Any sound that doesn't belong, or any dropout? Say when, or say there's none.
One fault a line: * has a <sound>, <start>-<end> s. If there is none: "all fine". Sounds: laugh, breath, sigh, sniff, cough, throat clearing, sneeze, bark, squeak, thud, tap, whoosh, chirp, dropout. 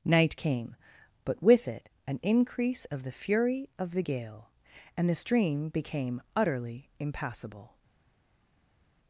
all fine